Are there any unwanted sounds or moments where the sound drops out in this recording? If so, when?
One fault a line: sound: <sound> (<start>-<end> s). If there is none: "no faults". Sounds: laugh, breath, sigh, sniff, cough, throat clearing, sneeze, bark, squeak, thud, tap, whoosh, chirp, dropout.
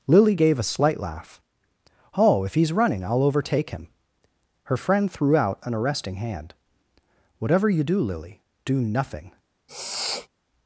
sound: sniff (9.7-10.3 s)